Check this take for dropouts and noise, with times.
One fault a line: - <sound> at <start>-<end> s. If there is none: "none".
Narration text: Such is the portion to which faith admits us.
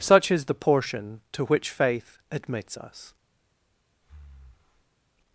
- breath at 4.0-5.0 s